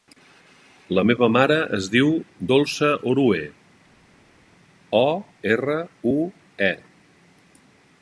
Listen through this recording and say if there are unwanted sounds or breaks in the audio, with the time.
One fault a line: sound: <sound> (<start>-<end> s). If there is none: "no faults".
no faults